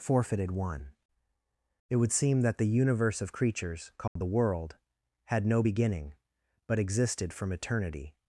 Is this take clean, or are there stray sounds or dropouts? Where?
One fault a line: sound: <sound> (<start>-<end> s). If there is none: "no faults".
sound: dropout (4.1-4.2 s)